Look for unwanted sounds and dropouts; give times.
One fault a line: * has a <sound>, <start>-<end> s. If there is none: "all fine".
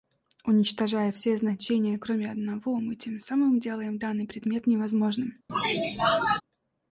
* has a sneeze, 5.5-6.4 s